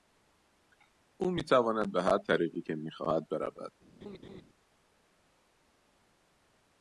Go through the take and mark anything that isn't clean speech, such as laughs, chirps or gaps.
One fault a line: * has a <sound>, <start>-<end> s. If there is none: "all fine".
* has a laugh, 4.0-4.4 s